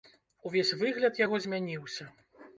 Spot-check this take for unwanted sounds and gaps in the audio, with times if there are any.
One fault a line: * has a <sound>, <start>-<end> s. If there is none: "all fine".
all fine